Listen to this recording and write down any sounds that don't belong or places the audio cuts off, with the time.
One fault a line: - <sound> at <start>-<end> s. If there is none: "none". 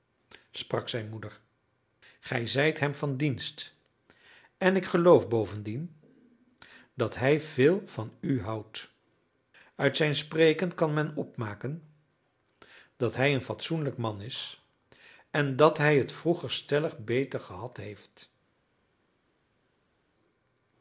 none